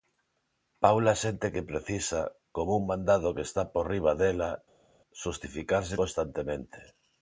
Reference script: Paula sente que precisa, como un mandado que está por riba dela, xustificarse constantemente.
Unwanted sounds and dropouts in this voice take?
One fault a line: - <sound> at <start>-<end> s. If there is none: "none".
none